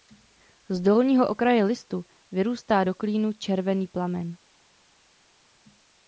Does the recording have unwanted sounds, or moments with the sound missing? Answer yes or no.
no